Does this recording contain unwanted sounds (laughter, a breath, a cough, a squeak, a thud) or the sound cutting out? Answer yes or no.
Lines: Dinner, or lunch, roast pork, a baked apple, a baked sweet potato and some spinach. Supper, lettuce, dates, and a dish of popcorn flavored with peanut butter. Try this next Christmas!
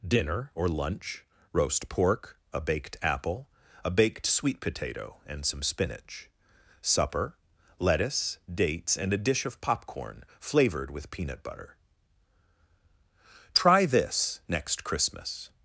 no